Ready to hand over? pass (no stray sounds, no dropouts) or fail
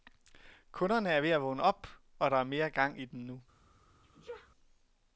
fail